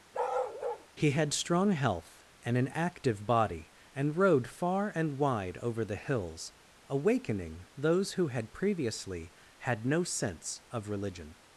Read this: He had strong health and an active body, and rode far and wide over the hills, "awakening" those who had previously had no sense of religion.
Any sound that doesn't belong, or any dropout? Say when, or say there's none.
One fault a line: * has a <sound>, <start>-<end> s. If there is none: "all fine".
* has a bark, 0.1-0.9 s